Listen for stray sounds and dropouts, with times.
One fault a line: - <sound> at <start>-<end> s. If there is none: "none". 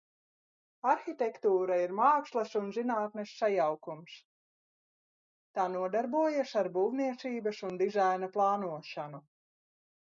none